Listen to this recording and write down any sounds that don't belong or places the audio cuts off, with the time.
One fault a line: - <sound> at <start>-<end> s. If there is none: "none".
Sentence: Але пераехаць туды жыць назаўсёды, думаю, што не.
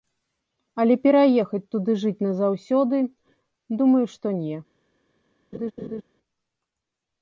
- laugh at 5.5-6.0 s